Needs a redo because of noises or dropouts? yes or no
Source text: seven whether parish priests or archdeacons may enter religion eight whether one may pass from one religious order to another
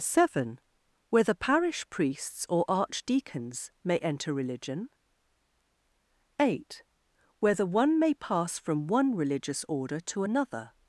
no